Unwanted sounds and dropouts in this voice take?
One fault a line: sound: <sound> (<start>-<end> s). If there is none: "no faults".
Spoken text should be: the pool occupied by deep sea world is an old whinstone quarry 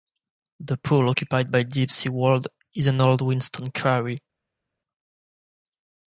no faults